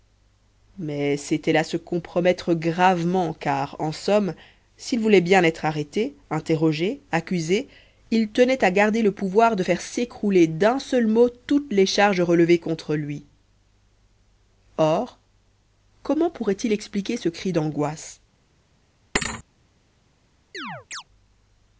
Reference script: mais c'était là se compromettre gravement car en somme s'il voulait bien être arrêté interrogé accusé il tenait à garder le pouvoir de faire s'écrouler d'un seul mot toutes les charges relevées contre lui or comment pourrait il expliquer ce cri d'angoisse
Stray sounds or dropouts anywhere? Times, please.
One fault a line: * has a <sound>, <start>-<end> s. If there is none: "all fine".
* has a thud, 19.1-19.4 s
* has a chirp, 20.5-21.0 s